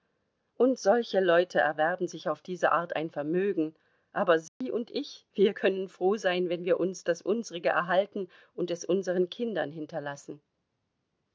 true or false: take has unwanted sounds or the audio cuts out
true